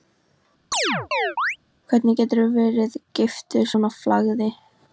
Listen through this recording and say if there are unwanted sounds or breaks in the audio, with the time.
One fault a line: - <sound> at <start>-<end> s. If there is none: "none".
- chirp at 0.7-1.6 s